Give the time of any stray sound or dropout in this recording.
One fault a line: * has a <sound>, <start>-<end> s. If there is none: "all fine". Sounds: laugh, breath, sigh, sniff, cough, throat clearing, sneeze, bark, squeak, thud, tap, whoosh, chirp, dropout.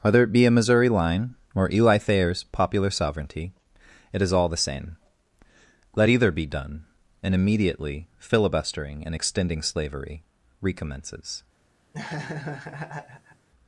* has a laugh, 11.9-13.5 s